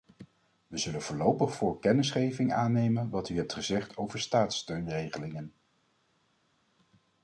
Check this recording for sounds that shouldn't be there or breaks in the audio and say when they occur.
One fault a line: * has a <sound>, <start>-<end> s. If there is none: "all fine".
all fine